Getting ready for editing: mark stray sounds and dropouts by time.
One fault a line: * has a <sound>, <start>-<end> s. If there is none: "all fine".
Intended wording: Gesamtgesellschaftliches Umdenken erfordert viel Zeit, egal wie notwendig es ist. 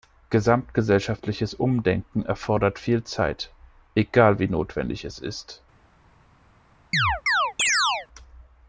* has a chirp, 6.9-8.1 s